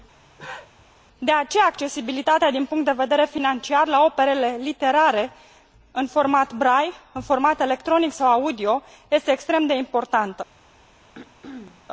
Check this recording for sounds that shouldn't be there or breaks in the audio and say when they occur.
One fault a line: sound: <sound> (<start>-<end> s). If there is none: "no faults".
sound: cough (0.2-0.9 s)
sound: throat clearing (11.1-11.9 s)